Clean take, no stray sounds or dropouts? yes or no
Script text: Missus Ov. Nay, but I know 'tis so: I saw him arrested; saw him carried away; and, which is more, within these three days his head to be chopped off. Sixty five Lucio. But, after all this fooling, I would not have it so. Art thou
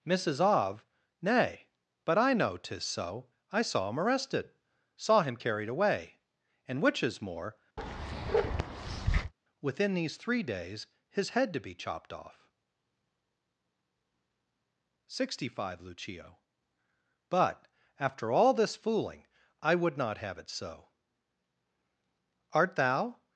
no